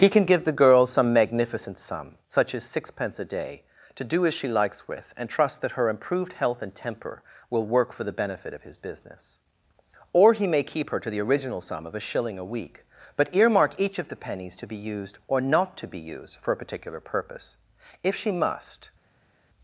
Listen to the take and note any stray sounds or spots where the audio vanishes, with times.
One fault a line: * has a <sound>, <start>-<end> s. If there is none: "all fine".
all fine